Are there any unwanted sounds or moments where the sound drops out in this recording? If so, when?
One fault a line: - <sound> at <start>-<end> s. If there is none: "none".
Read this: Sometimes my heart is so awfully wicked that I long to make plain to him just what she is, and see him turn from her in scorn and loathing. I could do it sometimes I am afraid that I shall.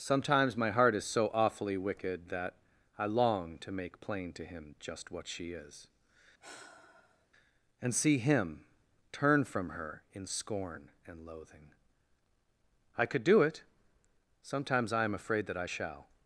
- sigh at 6.4-7.3 s